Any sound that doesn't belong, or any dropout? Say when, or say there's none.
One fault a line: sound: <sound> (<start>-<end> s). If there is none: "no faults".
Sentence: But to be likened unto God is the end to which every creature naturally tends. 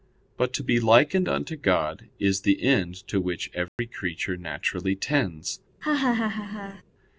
sound: dropout (3.7-3.8 s)
sound: laugh (5.8-6.8 s)